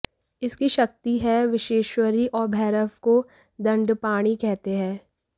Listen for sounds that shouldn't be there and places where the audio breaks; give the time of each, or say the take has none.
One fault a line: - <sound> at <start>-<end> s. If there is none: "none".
none